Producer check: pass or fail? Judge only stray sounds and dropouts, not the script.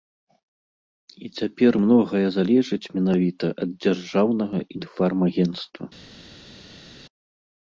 pass